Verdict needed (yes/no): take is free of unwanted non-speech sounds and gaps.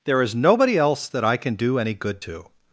yes